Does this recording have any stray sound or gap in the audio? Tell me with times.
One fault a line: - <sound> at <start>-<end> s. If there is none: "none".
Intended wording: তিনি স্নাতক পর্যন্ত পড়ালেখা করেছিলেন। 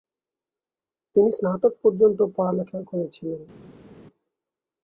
none